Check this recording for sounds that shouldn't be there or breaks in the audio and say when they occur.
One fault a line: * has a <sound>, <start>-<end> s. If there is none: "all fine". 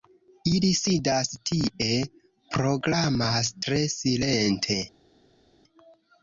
all fine